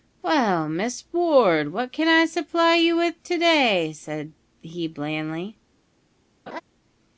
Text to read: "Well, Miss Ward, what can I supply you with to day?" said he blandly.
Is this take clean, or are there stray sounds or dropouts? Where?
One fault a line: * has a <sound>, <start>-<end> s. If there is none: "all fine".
* has a laugh, 6.5-6.6 s